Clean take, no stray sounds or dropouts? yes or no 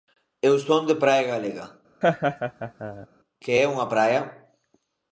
no